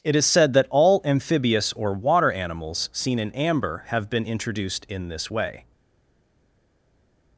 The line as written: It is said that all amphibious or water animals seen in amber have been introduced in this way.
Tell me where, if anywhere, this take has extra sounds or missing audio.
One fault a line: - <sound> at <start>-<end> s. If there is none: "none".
none